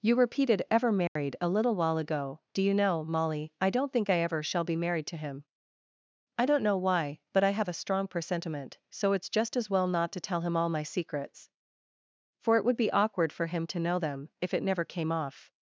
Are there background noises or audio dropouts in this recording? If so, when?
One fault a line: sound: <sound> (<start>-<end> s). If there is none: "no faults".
sound: dropout (1.1-1.2 s)